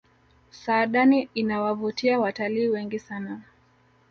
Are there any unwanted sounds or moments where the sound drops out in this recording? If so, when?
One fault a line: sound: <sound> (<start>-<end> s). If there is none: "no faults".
no faults